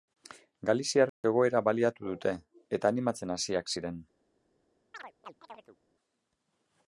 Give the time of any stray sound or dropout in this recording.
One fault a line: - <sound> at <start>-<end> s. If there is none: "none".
- dropout at 1.1-1.2 s
- chirp at 4.9-5.8 s